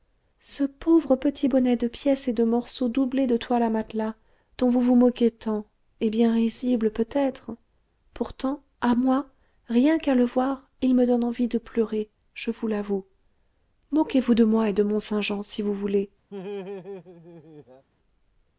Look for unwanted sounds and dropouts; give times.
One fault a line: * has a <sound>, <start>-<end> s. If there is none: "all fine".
* has a laugh, 16.3-17.9 s